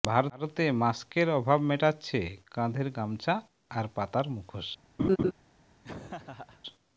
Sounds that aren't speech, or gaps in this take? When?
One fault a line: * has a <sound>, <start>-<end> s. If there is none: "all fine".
* has a laugh, 5.0-5.3 s
* has a laugh, 5.8-6.6 s